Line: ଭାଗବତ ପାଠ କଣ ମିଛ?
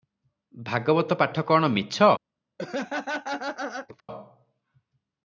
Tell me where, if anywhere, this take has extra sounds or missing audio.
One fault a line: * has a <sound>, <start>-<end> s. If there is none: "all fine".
* has a laugh, 2.6-4.0 s